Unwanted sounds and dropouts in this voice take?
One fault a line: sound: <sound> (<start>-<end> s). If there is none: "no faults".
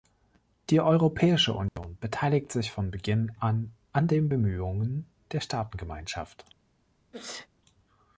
sound: dropout (1.7-1.8 s)
sound: sneeze (7.1-7.5 s)